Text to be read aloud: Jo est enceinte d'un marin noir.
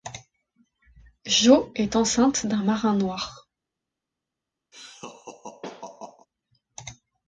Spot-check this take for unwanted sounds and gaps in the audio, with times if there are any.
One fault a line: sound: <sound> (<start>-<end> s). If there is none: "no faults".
sound: laugh (4.7-6.3 s)